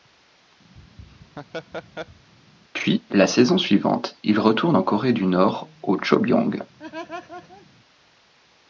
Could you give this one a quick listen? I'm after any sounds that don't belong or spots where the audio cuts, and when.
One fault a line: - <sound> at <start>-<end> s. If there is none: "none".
- laugh at 0.7-2.3 s
- laugh at 6.8-7.7 s